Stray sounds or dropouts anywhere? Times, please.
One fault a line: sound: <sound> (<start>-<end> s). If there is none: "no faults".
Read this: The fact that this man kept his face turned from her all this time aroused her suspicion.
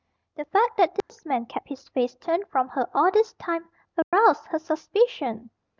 sound: dropout (1.0-1.1 s)
sound: dropout (4.0-4.1 s)